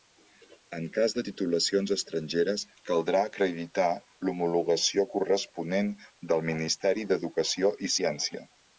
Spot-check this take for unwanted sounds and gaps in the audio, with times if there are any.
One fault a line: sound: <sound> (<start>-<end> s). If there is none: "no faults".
no faults